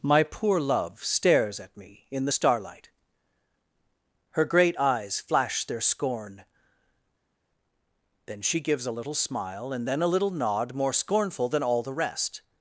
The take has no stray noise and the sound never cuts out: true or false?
true